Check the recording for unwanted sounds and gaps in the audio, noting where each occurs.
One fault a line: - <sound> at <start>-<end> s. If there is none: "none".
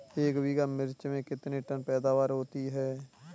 none